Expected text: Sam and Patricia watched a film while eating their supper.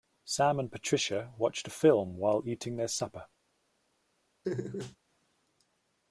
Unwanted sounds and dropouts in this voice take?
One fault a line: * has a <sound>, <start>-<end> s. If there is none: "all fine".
* has a laugh, 4.4-5.0 s